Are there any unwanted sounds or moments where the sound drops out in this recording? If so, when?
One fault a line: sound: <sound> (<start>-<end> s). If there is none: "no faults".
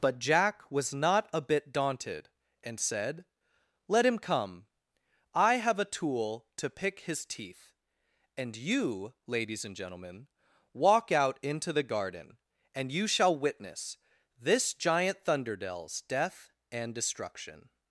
no faults